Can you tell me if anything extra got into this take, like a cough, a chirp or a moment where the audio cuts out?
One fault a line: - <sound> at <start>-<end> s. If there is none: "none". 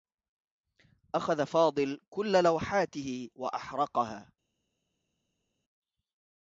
none